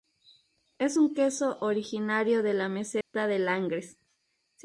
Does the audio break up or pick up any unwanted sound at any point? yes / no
yes